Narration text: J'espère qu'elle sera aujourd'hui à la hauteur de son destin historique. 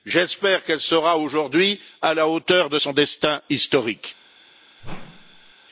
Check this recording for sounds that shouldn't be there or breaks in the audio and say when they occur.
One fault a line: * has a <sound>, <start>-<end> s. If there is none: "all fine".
* has a whoosh, 4.8-5.5 s